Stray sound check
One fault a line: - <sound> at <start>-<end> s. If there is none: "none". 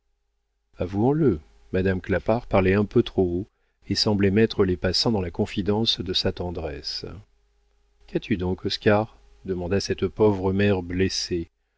none